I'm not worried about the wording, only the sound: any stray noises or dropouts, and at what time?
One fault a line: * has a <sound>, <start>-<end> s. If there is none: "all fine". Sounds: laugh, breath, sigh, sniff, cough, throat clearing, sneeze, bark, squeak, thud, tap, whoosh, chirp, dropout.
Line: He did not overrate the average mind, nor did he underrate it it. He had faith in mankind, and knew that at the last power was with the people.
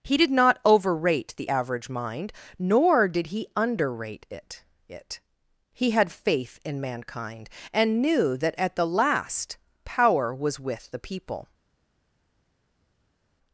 all fine